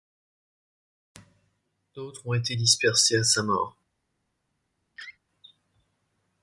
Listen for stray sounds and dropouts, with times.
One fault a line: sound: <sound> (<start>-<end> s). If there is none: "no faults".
sound: laugh (5.0-5.2 s)